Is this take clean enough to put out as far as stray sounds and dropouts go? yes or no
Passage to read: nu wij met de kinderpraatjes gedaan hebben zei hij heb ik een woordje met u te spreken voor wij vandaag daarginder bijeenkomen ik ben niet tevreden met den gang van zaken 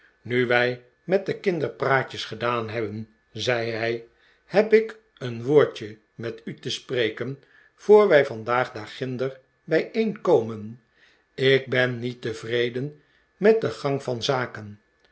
yes